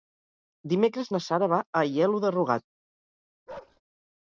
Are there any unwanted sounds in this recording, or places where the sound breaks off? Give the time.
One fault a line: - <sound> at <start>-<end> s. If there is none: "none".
- bark at 3.5-3.8 s